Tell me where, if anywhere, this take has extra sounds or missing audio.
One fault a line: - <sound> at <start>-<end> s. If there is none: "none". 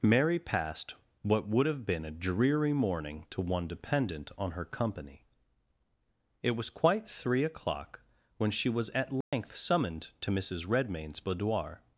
- dropout at 9.2-9.3 s